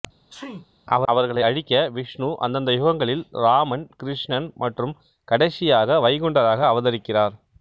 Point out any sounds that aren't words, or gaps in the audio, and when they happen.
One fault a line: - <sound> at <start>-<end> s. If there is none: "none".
- sneeze at 0.3-0.7 s